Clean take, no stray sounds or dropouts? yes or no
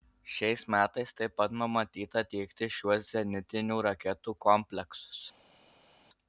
yes